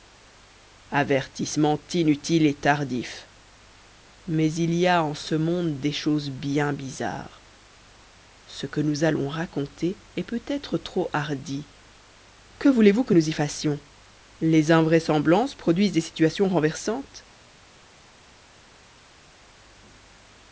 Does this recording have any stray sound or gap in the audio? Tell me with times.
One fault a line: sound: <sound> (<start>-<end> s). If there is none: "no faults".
no faults